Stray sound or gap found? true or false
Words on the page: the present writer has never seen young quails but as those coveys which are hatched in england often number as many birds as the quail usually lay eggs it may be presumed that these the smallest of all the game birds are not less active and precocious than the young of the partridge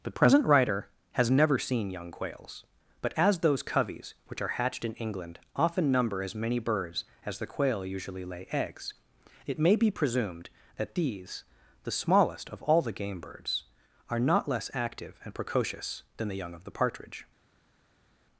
false